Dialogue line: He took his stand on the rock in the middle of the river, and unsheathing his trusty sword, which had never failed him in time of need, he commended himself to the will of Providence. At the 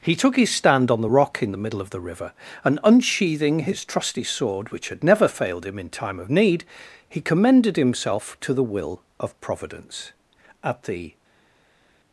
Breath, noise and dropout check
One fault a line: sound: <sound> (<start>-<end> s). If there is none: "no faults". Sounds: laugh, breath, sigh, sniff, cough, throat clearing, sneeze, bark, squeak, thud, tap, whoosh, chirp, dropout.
no faults